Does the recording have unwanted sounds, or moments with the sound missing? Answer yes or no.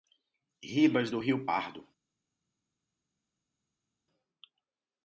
no